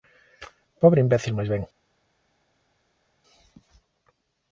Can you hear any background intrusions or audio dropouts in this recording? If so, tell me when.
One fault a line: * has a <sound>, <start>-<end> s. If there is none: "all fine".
all fine